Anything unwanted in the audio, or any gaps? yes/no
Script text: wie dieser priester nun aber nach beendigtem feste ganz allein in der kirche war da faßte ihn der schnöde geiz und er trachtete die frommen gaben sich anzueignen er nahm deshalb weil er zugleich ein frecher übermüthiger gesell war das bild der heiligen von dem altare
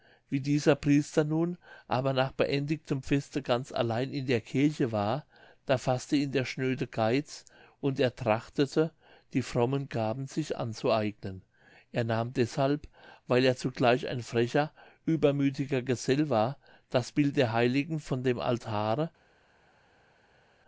no